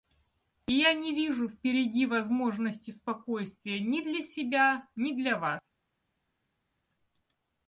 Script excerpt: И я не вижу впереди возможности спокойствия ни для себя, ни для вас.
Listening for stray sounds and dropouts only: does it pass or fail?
pass